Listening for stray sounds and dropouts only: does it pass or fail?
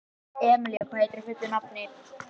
fail